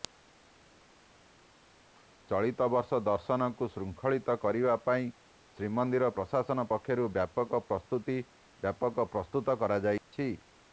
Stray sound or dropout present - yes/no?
yes